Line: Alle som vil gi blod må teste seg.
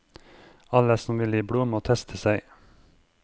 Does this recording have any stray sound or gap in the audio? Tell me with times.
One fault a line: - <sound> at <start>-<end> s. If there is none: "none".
none